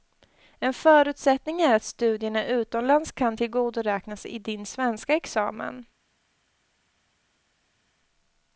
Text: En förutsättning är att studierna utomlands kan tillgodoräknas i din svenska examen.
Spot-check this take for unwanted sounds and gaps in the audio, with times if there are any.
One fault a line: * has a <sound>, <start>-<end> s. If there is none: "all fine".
all fine